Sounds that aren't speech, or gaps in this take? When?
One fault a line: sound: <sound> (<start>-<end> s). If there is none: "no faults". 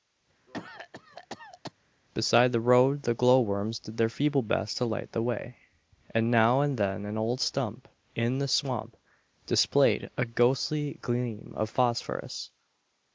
sound: cough (0.5-1.7 s)